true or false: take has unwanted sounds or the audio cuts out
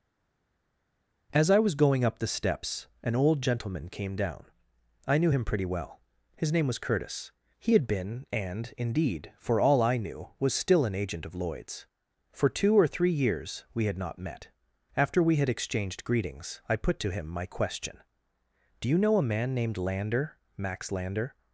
false